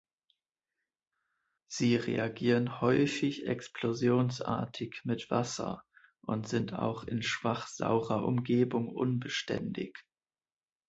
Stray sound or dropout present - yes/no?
no